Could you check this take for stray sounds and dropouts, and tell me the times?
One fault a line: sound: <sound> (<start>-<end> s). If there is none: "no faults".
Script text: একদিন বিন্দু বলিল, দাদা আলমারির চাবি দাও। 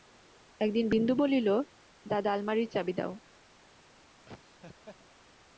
sound: laugh (4.3-5.0 s)